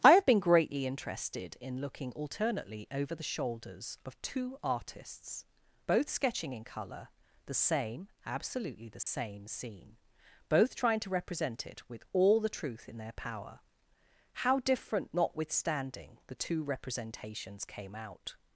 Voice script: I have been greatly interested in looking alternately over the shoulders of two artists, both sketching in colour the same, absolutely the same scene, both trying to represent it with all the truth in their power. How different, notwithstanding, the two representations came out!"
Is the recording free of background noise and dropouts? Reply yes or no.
no